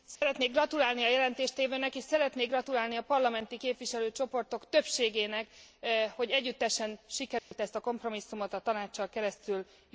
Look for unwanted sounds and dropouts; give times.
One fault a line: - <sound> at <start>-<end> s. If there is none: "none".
- dropout at 0.2-0.2 s
- dropout at 7.4-7.5 s